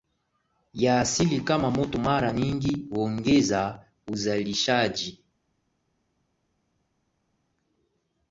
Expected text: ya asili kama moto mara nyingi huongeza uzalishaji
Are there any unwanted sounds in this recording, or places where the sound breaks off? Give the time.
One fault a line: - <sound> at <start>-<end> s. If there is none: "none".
none